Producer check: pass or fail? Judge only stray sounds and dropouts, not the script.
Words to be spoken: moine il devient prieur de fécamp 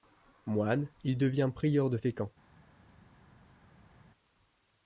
pass